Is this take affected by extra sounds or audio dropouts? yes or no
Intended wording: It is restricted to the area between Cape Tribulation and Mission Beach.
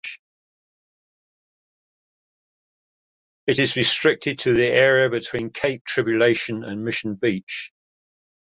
no